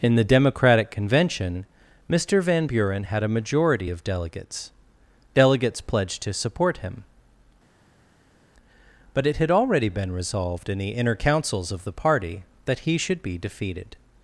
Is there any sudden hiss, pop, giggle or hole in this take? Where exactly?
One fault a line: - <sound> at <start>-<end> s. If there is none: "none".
none